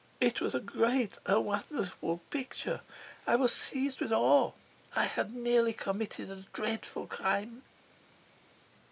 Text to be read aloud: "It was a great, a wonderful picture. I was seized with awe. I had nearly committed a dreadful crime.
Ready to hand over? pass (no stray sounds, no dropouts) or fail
pass